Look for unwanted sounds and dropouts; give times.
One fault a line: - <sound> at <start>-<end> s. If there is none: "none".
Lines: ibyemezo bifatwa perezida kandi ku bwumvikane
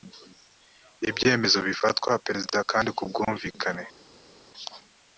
none